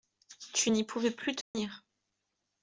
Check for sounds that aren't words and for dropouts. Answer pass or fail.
fail